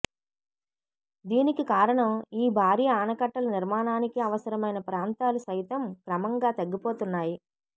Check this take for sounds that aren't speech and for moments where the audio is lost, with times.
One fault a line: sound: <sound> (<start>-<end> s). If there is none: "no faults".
no faults